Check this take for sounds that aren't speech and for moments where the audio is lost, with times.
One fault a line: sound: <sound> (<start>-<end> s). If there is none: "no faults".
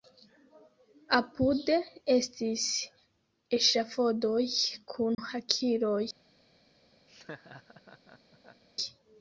sound: dropout (5.1-5.2 s)
sound: laugh (7.1-8.6 s)